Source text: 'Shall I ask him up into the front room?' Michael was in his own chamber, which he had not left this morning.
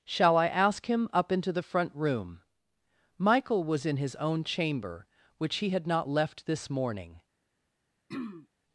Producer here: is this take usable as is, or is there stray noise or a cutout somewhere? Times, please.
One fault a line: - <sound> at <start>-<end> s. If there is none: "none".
- throat clearing at 8.1-8.5 s